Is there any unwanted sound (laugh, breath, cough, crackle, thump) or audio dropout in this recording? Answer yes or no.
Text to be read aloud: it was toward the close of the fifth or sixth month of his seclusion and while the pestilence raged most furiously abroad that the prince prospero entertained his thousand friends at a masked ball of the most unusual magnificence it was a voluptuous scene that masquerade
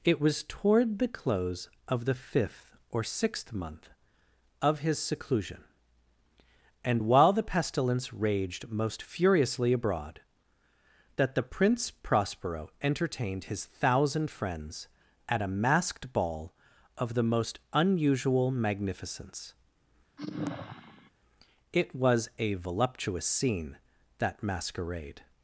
yes